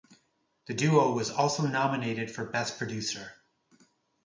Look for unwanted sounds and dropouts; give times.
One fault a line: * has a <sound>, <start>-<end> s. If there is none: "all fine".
all fine